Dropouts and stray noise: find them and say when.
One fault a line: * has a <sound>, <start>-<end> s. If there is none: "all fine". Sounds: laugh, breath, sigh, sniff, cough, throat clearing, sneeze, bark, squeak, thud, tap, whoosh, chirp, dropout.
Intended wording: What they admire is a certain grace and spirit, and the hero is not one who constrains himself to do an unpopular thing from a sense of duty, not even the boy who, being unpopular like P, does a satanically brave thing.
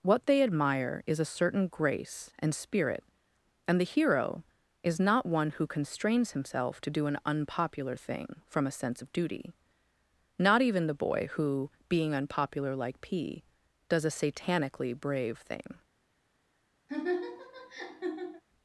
* has a laugh, 16.9-18.4 s